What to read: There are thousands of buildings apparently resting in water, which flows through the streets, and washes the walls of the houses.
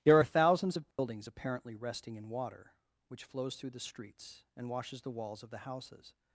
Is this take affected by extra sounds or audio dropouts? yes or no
yes